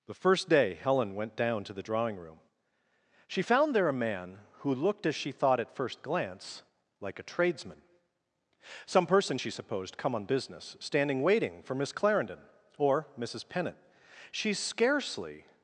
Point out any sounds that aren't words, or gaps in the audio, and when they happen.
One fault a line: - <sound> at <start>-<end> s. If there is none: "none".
none